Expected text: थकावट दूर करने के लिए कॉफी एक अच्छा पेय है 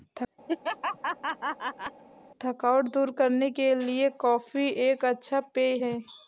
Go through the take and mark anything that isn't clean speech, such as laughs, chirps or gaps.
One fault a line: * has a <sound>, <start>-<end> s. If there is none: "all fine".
* has a laugh, 0.5-2.0 s